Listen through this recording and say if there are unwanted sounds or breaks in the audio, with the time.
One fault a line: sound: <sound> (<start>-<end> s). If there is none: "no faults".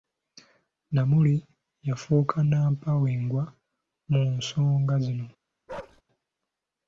sound: bark (5.7-6.0 s)